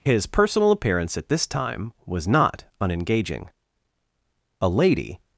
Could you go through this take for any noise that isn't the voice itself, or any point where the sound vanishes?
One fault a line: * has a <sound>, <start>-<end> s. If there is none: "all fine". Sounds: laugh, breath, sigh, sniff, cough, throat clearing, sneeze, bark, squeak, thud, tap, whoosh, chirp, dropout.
all fine